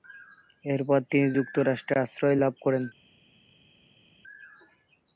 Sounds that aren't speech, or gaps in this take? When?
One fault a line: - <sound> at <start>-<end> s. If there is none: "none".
none